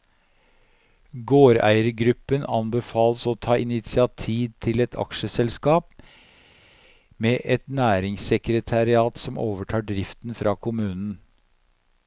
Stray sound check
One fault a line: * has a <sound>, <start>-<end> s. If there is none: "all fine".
all fine